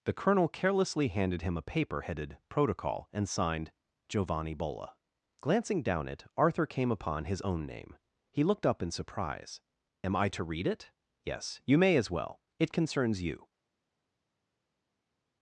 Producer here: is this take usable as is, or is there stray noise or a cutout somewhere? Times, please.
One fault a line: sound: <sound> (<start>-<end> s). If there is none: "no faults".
no faults